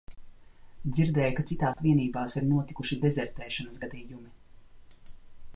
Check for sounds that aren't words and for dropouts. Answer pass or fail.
fail